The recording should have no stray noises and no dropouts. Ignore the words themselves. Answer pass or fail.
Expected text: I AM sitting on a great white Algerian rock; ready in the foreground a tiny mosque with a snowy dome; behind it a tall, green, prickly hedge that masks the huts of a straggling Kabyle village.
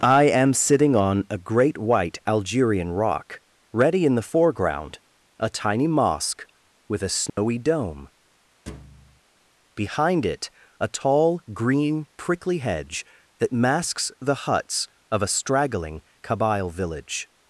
fail